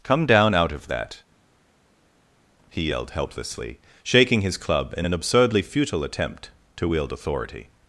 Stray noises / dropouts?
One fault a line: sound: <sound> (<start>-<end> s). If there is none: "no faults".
no faults